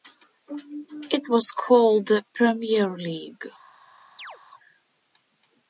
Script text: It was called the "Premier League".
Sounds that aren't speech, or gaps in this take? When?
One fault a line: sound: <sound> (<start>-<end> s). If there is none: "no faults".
sound: chirp (4.2-4.4 s)